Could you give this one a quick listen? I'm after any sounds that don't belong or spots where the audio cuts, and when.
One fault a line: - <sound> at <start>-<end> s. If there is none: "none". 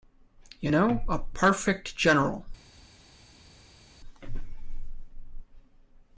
none